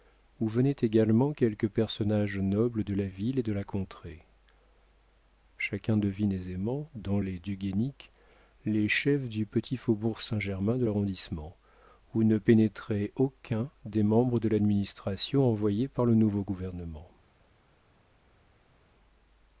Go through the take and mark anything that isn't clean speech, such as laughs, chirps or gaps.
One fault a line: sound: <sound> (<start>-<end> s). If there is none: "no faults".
no faults